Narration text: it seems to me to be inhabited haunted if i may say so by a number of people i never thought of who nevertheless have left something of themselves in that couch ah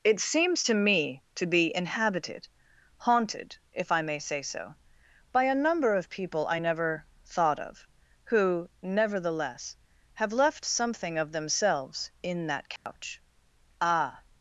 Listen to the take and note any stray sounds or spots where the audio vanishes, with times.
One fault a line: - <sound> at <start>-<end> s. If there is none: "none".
- dropout at 12.8-12.9 s